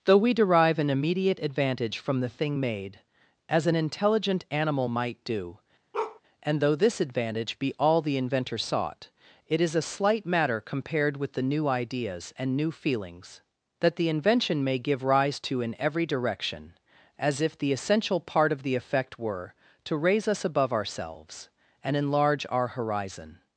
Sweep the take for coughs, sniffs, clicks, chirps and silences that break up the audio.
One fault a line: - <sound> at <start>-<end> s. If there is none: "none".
- bark at 5.9-6.2 s